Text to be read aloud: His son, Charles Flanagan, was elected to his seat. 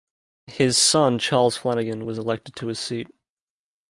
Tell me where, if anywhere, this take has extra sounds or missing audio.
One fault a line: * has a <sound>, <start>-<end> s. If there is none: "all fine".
all fine